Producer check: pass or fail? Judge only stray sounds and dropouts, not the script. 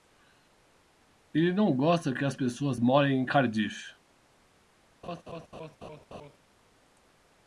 fail